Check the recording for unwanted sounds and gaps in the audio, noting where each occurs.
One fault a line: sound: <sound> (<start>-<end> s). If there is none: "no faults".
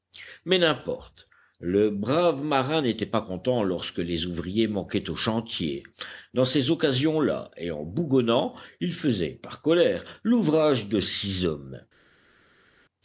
no faults